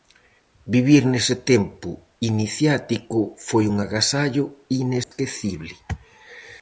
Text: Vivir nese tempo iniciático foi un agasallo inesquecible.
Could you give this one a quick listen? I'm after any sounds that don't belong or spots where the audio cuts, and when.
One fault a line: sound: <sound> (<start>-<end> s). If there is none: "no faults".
sound: dropout (5.0-5.1 s)